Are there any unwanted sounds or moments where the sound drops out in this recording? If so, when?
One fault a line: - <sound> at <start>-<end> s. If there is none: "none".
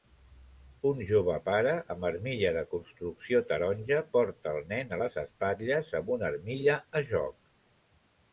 none